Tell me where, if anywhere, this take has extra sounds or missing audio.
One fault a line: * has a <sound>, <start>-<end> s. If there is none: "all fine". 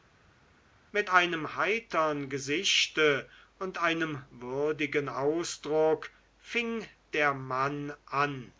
all fine